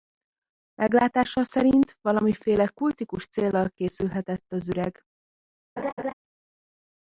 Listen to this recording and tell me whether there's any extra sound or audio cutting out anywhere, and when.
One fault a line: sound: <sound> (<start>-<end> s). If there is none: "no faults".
sound: laugh (5.8-6.1 s)